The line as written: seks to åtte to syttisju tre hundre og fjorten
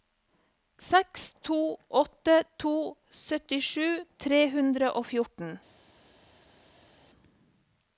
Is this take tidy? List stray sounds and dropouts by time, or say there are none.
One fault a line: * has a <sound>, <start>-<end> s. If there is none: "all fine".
all fine